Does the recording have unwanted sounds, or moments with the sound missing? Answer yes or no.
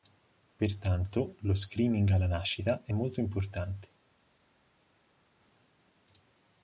no